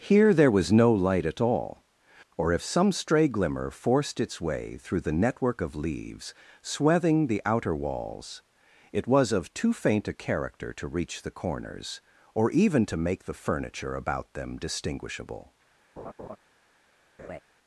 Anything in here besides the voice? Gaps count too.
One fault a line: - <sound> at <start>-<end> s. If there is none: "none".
- laugh at 16.0-16.4 s
- laugh at 17.2-17.4 s